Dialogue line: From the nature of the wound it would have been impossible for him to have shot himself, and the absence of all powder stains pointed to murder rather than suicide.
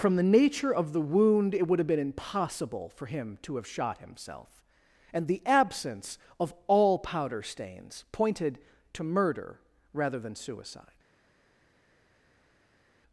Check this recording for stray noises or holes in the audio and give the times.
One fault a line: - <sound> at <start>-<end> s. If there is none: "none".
none